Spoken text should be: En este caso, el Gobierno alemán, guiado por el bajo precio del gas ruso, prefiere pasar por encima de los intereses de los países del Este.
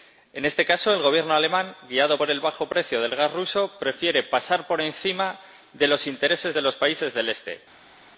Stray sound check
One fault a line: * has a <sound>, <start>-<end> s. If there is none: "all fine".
all fine